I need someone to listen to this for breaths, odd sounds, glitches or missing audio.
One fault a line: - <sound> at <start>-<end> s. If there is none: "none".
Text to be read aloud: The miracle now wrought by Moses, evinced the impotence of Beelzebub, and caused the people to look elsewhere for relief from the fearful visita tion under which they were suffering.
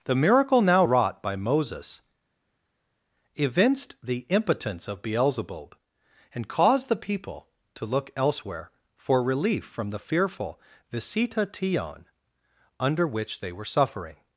none